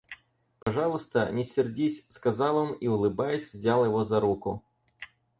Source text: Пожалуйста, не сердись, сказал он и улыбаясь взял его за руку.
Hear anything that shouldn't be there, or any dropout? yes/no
yes